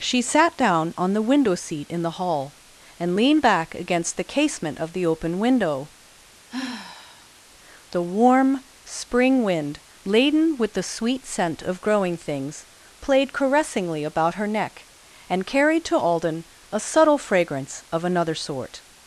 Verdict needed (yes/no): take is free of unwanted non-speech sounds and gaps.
no